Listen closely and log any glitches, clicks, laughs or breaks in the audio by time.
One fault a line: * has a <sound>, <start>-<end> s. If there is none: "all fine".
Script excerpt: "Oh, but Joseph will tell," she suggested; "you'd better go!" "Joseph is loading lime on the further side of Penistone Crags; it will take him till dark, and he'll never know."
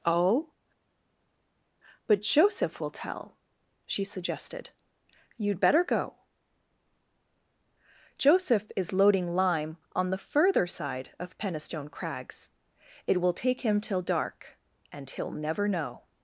all fine